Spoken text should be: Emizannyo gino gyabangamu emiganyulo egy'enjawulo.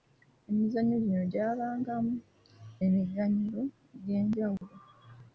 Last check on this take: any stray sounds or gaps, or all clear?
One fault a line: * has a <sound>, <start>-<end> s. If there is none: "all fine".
* has a dropout, 4.6-4.6 s